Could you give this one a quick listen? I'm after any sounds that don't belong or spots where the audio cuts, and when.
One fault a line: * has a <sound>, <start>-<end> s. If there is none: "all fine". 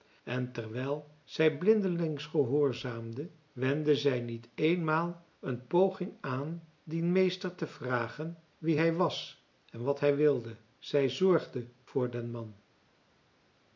all fine